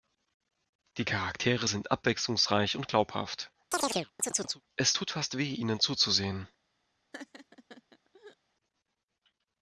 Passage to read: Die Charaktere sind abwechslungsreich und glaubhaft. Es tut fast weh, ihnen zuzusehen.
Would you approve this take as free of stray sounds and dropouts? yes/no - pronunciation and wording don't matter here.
no